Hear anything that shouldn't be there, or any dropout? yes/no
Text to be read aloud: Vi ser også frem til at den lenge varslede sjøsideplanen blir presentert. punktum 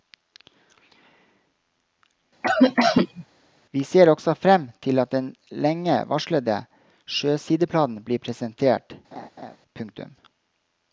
yes